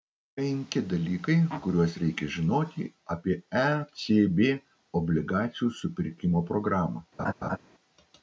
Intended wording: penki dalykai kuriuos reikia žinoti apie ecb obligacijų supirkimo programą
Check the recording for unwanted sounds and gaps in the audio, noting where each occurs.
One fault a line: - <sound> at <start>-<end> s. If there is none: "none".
- laugh at 7.2-7.6 s